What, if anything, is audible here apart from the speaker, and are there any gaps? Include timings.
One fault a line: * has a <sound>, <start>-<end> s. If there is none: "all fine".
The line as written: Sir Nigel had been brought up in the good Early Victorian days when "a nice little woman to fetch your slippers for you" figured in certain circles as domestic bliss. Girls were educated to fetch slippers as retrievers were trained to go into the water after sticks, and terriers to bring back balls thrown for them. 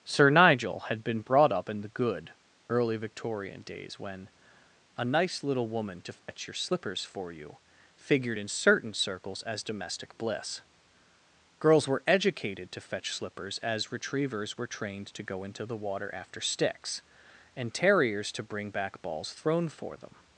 * has a dropout, 6.2-6.3 s